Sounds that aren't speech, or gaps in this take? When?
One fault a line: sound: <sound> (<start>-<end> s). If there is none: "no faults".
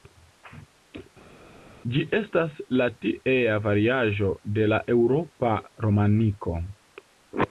no faults